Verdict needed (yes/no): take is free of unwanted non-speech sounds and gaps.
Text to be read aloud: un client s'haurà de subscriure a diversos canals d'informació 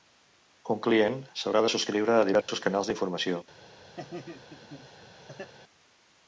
no